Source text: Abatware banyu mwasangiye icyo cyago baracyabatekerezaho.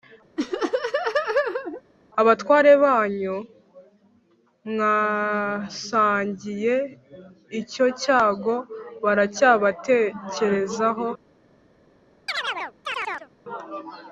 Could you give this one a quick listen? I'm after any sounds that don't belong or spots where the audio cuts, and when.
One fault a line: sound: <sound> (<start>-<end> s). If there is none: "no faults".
sound: laugh (0.4-1.8 s)
sound: chirp (12.3-13.3 s)